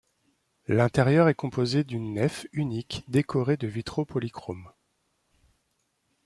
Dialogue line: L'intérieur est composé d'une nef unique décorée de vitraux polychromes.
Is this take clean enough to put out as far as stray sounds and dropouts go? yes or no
yes